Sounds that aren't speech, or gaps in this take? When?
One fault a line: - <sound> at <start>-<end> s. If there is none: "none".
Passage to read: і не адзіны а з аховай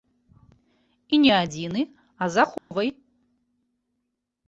- dropout at 2.6-2.7 s